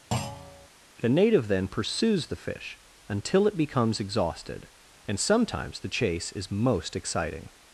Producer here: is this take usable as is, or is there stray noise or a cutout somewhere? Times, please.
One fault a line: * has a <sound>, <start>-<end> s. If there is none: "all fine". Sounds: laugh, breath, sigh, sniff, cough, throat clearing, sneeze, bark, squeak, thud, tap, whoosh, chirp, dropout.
* has a thud, 0.1-0.7 s